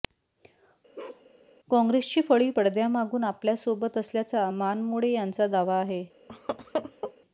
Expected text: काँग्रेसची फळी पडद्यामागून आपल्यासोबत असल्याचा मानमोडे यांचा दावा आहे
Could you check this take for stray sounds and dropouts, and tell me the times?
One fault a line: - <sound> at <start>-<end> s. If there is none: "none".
- bark at 1.0-1.3 s
- laugh at 6.3-7.1 s